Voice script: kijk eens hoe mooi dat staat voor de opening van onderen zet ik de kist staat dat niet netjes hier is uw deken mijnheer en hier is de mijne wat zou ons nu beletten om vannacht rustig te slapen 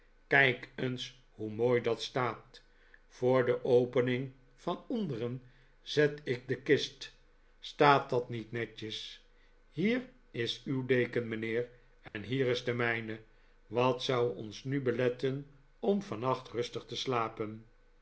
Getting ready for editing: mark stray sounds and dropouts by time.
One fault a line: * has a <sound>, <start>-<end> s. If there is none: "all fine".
* has a dropout, 12.1-12.1 s